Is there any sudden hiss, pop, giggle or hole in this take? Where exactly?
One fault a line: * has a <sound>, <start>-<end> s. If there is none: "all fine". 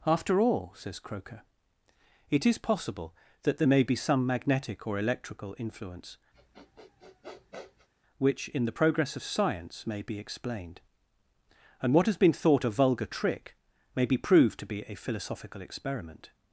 * has a sniff, 6.3-7.9 s